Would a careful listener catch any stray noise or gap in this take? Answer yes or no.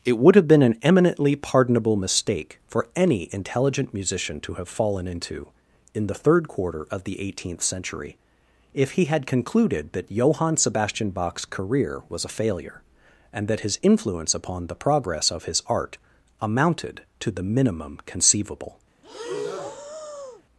yes